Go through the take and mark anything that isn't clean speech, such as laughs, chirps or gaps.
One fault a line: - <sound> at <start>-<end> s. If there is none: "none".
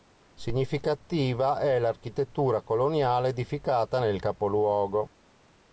none